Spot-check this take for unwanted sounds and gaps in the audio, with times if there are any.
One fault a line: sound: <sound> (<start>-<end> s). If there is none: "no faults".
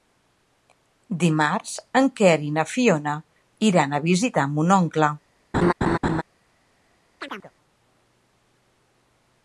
sound: laugh (5.5-6.2 s)
sound: chirp (7.2-7.5 s)